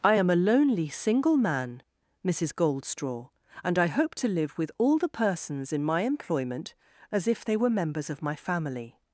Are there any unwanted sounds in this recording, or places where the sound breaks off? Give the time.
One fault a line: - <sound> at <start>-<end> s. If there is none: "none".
none